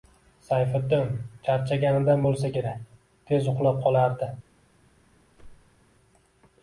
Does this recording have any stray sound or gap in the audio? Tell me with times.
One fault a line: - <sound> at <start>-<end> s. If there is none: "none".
- whoosh at 5.3-5.8 s